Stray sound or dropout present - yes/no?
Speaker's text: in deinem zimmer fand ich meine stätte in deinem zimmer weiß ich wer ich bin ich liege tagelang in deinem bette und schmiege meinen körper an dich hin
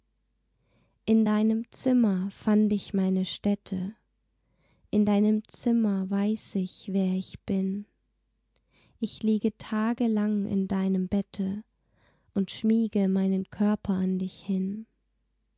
no